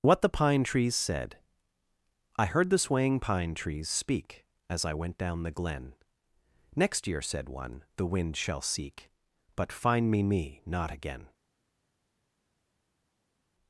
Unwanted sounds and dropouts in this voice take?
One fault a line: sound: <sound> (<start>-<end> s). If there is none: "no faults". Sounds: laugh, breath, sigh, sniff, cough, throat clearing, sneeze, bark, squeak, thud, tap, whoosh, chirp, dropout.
no faults